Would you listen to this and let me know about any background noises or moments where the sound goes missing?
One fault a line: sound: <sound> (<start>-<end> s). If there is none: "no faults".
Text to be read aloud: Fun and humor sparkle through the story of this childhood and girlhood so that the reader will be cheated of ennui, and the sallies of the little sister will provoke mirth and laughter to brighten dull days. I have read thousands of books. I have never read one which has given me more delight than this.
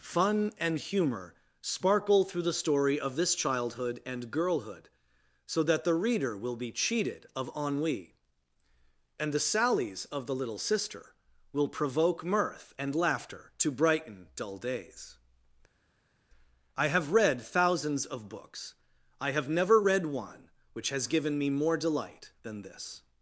no faults